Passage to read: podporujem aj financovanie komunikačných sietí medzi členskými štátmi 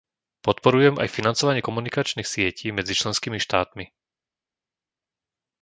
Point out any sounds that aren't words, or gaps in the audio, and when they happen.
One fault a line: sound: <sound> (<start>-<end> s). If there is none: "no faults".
no faults